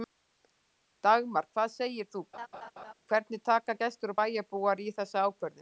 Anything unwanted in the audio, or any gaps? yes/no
yes